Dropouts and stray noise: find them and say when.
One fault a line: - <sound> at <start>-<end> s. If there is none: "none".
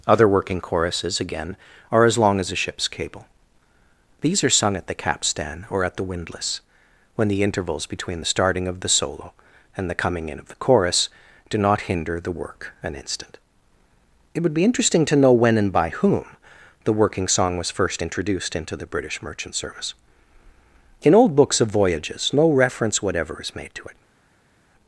none